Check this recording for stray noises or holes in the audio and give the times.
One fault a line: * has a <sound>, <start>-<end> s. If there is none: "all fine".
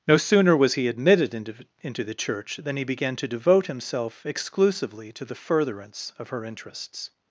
all fine